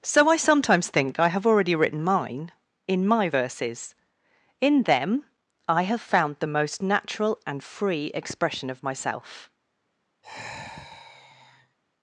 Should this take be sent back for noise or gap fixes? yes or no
yes